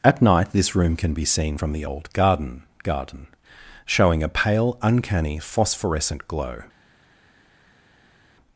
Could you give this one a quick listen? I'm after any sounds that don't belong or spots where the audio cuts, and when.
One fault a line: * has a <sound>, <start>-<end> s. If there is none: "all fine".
all fine